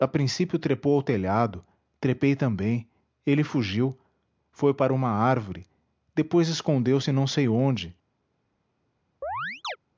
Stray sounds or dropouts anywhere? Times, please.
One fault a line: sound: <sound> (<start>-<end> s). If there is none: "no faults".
sound: chirp (9.2-9.8 s)